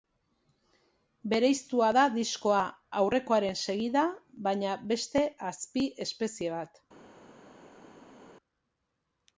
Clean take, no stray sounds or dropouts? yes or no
yes